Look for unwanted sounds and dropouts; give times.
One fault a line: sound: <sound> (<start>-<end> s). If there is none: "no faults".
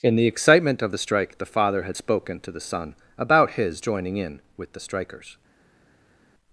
no faults